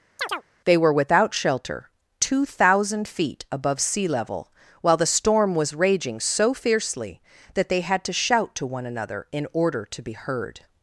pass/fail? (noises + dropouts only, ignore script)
fail